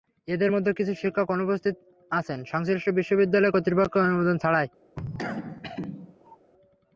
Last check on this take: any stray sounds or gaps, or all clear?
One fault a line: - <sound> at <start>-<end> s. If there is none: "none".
- cough at 5.0-6.4 s